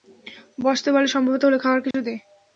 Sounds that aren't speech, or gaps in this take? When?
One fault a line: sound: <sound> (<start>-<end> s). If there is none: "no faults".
sound: dropout (1.9-1.9 s)